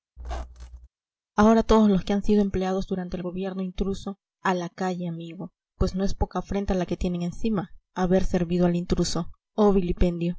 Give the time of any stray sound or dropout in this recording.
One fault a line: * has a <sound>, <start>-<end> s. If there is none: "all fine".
* has a squeak, 0.2-0.9 s